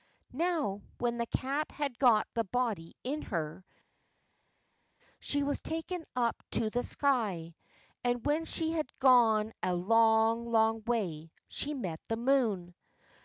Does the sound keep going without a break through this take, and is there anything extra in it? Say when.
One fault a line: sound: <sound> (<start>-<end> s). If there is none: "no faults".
no faults